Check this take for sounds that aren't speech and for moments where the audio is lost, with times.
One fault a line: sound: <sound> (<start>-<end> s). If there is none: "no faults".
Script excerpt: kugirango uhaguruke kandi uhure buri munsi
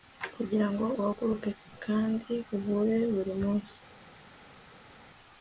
no faults